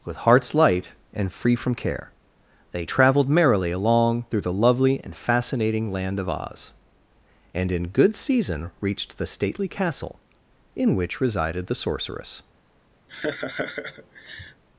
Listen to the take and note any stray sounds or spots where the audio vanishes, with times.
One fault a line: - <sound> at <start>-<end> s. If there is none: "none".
- laugh at 13.1-14.6 s